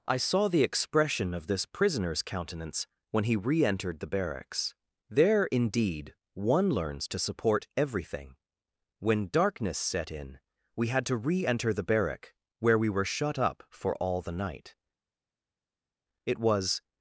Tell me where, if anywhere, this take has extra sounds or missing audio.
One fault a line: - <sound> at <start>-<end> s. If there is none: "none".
none